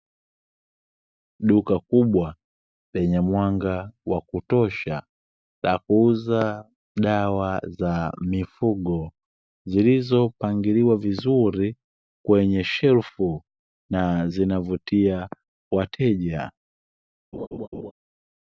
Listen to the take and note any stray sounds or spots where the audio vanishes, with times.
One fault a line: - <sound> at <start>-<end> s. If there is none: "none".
- laugh at 17.3-17.9 s